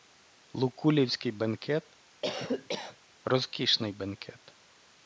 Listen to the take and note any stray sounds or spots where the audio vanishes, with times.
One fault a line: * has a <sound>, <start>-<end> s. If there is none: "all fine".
* has a cough, 2.2-3.0 s